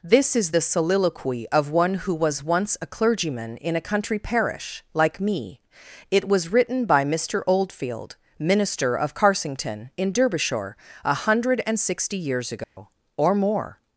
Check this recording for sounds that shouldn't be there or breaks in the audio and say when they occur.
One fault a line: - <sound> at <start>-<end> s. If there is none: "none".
- dropout at 12.6-12.8 s